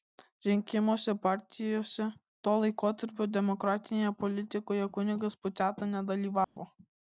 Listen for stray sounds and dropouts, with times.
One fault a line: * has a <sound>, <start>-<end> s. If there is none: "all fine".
* has a dropout, 6.4-6.6 s